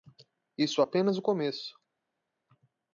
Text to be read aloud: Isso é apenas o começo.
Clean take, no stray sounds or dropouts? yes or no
yes